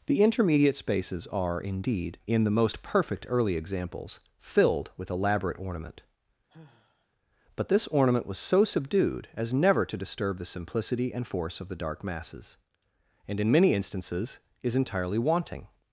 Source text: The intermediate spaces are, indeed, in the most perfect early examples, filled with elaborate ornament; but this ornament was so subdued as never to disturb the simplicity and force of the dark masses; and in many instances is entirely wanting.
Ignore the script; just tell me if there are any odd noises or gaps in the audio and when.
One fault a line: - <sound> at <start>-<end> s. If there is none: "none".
- sigh at 6.5-7.1 s